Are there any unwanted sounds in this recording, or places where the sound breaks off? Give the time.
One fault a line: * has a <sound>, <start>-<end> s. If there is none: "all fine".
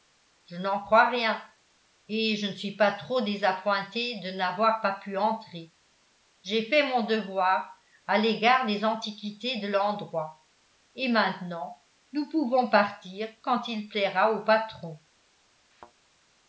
* has a thud, 15.7-15.9 s